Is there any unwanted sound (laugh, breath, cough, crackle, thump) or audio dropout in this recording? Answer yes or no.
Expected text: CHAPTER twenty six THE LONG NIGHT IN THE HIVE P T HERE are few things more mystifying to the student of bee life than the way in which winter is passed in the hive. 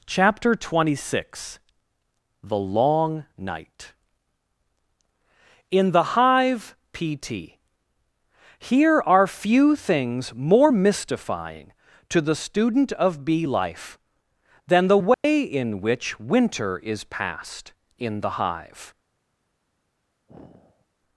yes